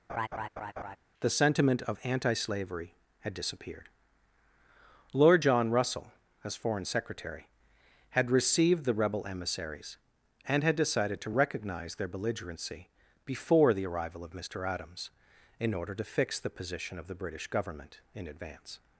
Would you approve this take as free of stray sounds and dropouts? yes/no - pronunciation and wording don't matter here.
no